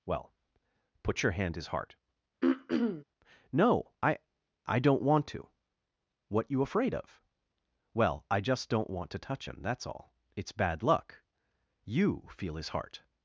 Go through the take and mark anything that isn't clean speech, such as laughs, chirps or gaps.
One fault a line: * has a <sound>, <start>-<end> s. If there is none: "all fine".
* has a throat clearing, 2.4-3.0 s